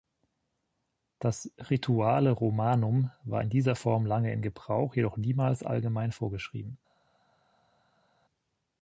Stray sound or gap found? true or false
false